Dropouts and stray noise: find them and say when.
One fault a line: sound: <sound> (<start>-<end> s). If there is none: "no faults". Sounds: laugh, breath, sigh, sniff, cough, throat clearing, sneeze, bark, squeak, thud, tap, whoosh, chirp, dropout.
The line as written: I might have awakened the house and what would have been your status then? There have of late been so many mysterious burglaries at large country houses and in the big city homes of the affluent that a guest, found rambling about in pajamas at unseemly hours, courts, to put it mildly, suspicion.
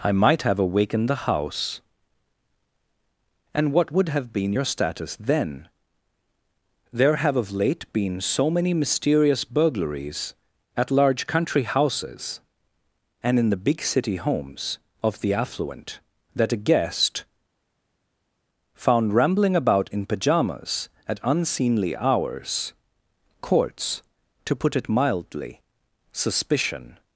no faults